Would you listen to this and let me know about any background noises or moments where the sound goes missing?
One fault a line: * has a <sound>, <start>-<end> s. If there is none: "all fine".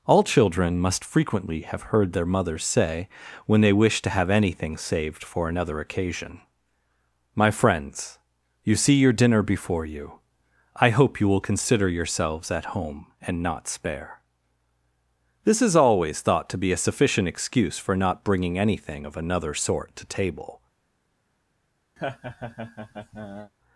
* has a laugh, 22.0-23.5 s